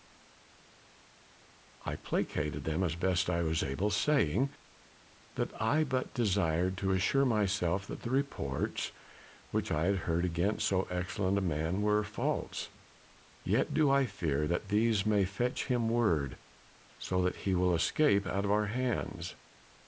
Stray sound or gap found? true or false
false